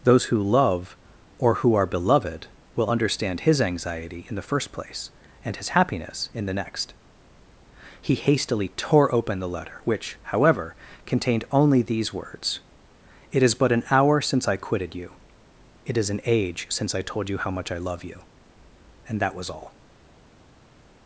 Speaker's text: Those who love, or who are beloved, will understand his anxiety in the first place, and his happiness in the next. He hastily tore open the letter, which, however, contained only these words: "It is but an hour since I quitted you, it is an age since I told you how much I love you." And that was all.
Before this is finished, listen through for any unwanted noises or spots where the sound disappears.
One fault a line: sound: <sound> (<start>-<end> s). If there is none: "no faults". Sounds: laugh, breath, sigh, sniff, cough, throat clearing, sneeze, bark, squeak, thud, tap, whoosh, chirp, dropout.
no faults